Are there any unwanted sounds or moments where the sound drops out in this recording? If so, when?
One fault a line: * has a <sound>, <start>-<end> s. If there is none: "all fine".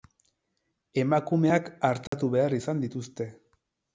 * has a dropout, 2.1-2.1 s